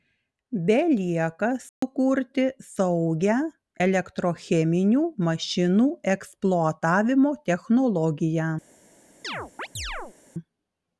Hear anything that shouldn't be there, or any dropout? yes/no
yes